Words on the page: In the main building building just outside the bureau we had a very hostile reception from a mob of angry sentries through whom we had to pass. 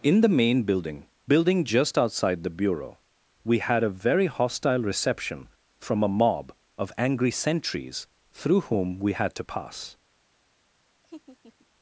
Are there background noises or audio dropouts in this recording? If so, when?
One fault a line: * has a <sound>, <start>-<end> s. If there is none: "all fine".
* has a laugh, 11.0-11.7 s